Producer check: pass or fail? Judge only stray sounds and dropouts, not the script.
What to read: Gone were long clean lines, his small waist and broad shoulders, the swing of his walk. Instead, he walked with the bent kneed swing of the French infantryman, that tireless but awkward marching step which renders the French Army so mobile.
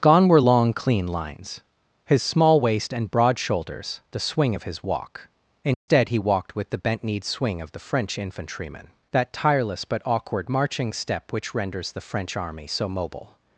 fail